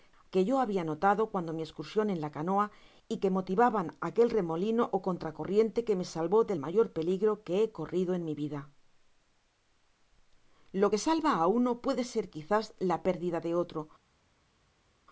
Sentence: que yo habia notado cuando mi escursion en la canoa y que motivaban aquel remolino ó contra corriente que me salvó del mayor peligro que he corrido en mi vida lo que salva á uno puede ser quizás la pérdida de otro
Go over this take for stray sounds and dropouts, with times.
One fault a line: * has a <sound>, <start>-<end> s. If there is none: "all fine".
all fine